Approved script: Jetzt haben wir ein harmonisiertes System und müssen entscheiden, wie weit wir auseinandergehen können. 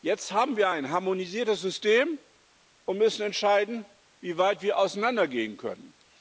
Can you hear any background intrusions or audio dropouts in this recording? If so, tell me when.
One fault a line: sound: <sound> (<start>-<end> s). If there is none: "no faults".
no faults